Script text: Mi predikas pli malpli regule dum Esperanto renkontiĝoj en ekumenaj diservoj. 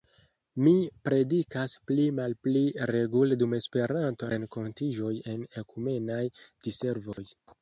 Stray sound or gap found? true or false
true